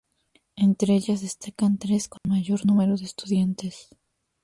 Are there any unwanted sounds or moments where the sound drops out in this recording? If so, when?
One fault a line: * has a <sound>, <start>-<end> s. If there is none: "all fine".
* has a dropout, 2.2-2.2 s